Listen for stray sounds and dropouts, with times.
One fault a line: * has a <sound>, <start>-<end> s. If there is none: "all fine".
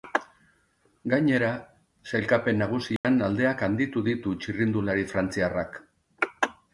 * has a dropout, 3.0-3.0 s